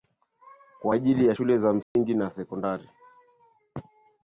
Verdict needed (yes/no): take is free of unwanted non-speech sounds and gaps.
no